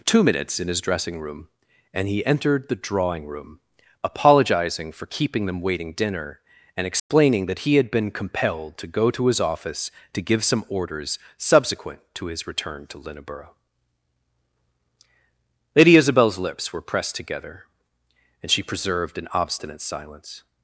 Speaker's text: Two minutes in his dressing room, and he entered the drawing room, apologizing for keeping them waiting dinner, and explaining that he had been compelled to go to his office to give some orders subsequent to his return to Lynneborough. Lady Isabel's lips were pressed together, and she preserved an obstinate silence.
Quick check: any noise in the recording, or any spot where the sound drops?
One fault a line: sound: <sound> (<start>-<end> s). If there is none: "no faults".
sound: dropout (7.0-7.1 s)